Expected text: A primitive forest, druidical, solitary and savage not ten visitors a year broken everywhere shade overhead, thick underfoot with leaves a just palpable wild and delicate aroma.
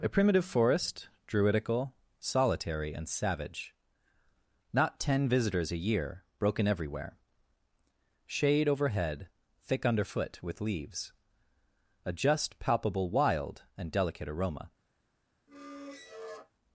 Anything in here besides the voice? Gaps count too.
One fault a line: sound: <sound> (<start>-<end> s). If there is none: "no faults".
sound: squeak (15.5-16.5 s)